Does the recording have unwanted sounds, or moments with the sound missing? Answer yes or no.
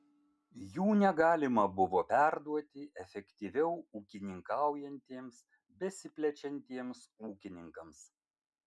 no